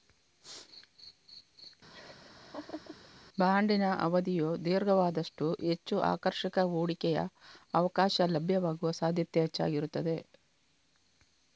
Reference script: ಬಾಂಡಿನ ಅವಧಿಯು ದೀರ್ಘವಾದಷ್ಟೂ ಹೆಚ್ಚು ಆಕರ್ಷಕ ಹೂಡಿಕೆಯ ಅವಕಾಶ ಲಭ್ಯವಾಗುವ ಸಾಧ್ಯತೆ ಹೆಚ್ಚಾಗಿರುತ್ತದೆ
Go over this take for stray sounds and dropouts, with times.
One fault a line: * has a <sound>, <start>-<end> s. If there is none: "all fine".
* has a laugh, 1.9-3.1 s